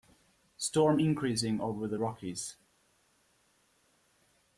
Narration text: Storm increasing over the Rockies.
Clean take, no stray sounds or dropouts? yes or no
yes